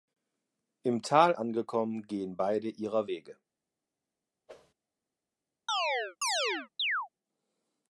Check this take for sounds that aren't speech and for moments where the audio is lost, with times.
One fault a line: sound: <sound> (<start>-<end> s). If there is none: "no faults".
sound: whoosh (4.5-4.7 s)
sound: chirp (5.7-7.1 s)